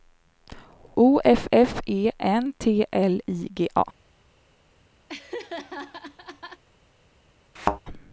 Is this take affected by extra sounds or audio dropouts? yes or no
yes